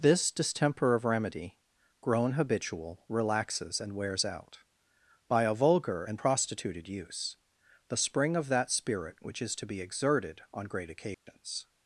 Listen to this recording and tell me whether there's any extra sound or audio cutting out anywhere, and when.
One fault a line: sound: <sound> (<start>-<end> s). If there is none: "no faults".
sound: dropout (11.1-11.3 s)